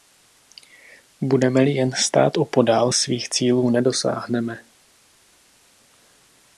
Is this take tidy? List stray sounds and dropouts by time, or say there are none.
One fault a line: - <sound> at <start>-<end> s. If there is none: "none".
none